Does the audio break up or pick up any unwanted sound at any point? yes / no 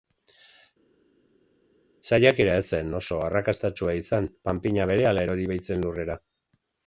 no